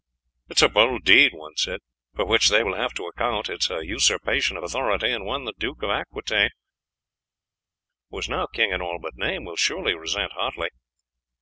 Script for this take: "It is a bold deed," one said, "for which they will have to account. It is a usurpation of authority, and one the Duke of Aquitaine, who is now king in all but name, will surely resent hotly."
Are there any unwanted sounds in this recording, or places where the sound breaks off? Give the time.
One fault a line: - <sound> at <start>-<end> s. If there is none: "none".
none